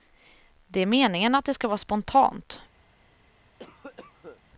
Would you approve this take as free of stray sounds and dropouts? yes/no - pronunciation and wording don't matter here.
no